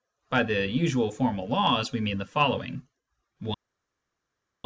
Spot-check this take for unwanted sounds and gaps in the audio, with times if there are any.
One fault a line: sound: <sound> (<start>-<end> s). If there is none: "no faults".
no faults